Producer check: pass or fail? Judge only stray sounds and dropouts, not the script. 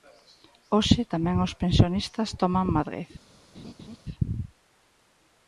fail